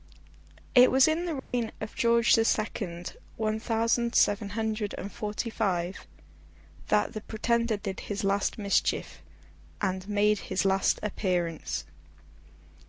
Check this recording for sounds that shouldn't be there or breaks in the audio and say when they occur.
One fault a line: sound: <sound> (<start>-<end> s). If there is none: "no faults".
sound: dropout (1.4-1.5 s)